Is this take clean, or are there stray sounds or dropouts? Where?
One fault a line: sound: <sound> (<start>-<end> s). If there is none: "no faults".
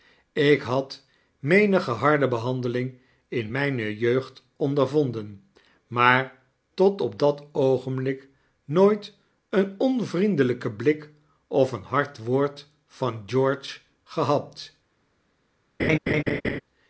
sound: laugh (15.8-16.6 s)